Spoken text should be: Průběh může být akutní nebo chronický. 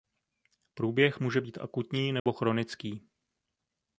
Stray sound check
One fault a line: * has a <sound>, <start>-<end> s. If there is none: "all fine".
* has a dropout, 2.2-2.3 s